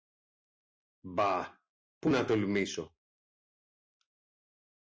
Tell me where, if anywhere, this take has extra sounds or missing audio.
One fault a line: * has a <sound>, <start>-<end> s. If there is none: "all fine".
all fine